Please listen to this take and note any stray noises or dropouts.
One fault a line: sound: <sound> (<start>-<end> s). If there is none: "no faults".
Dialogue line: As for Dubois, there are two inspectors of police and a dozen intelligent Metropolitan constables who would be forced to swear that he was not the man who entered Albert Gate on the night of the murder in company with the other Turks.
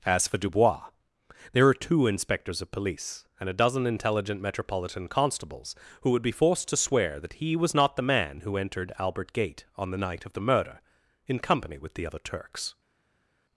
no faults